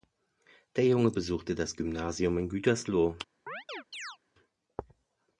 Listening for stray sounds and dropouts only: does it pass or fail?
fail